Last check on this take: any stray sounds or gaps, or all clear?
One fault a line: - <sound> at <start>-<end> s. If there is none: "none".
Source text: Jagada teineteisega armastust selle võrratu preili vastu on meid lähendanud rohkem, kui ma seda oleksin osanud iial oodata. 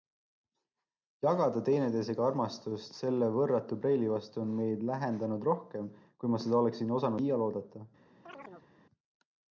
- chirp at 8.2-8.7 s